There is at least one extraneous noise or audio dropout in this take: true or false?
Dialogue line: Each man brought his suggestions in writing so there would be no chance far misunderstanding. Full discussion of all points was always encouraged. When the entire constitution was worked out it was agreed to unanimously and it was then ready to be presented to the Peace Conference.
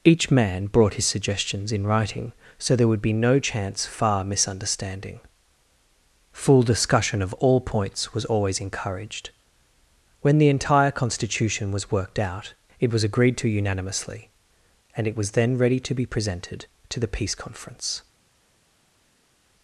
false